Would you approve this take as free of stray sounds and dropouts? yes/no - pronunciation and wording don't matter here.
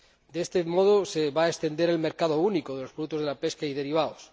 yes